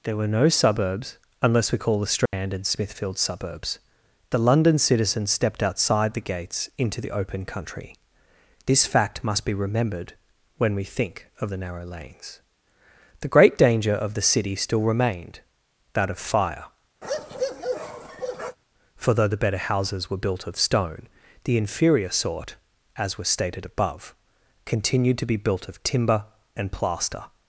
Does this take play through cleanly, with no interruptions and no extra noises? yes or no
no